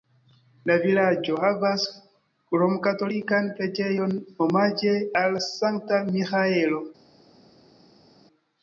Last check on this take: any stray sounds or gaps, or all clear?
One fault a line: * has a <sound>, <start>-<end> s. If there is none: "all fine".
all fine